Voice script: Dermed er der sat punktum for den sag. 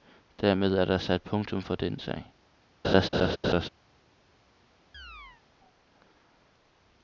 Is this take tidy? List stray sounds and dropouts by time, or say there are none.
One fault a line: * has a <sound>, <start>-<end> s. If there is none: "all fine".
* has a laugh, 2.8-3.7 s
* has a chirp, 4.9-5.4 s